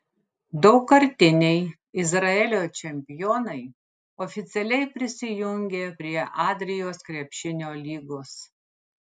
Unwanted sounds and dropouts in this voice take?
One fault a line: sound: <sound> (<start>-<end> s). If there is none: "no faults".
no faults